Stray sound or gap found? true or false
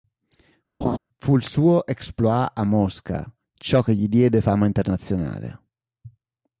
true